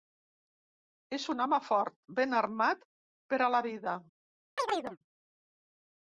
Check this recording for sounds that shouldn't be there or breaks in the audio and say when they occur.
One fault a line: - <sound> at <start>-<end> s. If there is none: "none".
- chirp at 4.6-5.0 s